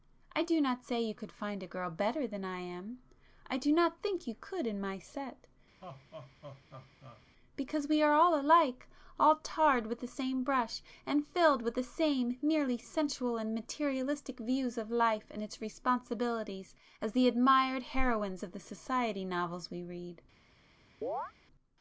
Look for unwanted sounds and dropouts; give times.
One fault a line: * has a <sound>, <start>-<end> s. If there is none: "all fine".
* has a laugh, 5.8-7.2 s
* has a chirp, 21.0-21.3 s